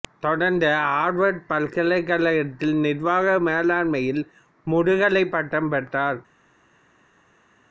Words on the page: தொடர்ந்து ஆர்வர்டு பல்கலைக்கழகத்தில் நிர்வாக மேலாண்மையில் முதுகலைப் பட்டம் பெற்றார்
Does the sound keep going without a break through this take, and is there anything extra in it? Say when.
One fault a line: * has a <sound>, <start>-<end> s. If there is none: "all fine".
all fine